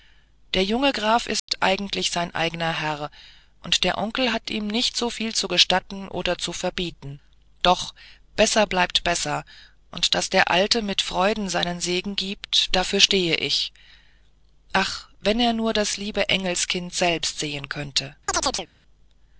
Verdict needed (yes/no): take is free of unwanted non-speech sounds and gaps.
no